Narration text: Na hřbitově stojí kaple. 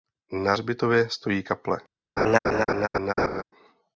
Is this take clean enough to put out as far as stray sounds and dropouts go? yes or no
no